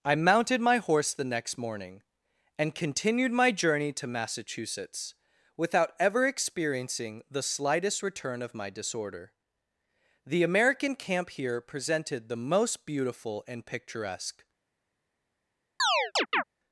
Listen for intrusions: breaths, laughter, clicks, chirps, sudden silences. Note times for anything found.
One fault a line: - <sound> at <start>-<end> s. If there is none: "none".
- chirp at 15.8-16.4 s